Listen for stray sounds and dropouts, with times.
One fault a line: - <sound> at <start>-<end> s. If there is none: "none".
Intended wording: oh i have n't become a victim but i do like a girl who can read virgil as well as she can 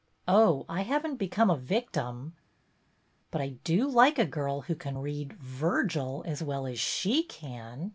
none